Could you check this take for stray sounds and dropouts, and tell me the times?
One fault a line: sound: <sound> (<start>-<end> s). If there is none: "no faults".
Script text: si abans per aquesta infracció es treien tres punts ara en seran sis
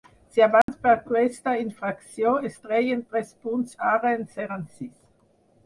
sound: dropout (0.6-0.7 s)